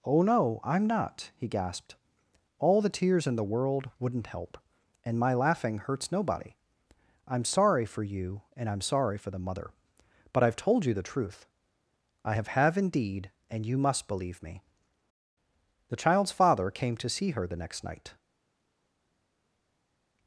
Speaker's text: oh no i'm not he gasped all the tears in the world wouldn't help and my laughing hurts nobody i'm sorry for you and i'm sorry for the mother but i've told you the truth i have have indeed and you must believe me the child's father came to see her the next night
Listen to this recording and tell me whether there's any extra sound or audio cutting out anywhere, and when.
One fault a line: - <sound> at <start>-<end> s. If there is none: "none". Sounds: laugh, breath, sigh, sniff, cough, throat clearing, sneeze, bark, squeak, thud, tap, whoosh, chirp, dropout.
none